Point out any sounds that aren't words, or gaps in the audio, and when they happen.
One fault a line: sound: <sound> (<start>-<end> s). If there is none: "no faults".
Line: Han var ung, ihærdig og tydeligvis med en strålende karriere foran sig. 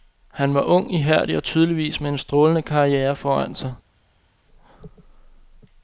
no faults